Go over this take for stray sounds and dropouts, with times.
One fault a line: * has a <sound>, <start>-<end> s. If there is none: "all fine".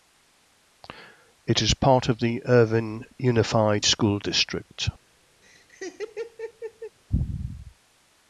* has a laugh, 5.4-7.0 s